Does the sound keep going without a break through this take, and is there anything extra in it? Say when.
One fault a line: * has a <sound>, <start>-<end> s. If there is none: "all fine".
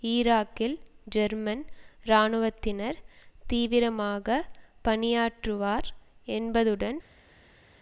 all fine